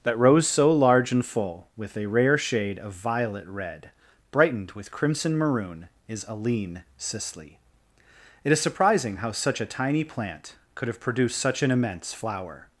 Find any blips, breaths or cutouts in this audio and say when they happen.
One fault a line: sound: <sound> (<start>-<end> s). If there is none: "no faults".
no faults